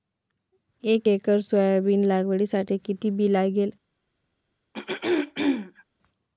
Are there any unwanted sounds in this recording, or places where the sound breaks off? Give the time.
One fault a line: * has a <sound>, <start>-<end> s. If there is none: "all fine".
* has a throat clearing, 4.7-5.8 s